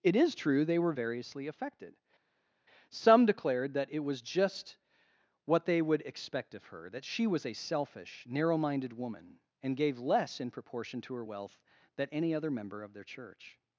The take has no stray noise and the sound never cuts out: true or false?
true